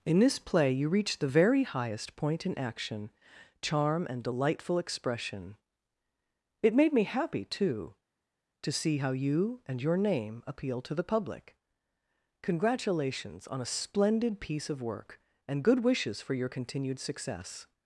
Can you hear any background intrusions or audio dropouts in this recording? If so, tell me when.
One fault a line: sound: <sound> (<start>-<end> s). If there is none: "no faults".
no faults